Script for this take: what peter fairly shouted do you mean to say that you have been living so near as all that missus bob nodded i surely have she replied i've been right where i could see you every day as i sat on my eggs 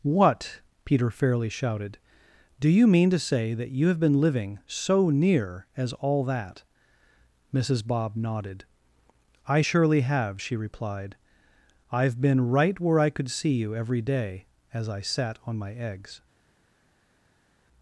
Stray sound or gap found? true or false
false